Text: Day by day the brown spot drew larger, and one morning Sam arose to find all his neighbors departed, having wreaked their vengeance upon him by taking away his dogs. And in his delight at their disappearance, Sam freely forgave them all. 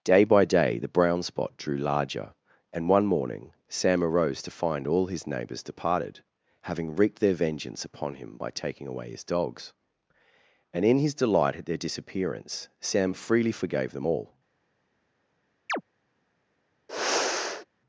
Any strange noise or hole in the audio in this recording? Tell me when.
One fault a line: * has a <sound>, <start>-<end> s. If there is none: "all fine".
* has a chirp, 15.7-15.8 s
* has a sigh, 16.9-17.7 s